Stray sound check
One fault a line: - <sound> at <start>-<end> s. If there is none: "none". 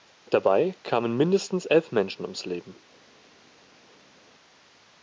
none